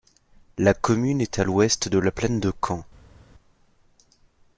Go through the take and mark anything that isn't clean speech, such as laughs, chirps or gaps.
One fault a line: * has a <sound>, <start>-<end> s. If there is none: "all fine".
all fine